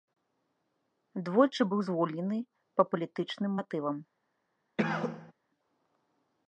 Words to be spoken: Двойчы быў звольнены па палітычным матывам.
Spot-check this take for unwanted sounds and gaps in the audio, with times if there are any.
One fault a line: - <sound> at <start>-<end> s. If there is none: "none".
- cough at 4.8-5.3 s